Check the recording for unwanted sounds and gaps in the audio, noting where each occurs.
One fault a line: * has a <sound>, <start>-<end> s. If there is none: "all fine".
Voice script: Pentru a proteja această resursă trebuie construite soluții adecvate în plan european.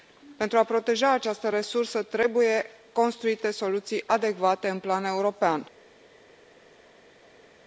all fine